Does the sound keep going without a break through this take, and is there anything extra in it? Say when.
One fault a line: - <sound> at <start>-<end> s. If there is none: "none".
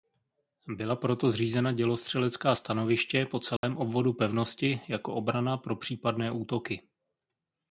- dropout at 3.6-3.6 s